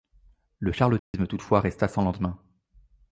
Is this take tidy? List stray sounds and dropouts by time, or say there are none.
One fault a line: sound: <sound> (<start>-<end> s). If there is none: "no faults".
sound: dropout (1.0-1.1 s)